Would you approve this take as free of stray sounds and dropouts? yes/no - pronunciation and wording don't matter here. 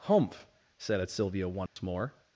no